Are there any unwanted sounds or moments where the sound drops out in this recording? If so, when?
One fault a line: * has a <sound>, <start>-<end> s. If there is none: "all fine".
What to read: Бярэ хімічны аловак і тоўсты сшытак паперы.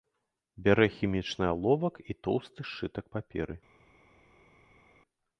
all fine